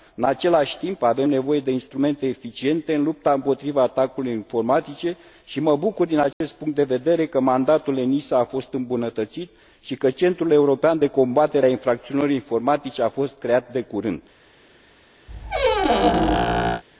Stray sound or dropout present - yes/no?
yes